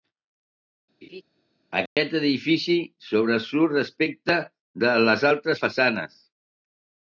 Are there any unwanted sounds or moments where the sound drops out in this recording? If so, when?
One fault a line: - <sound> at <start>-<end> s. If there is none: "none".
- laugh at 1.0-1.2 s
- dropout at 1.9-2.0 s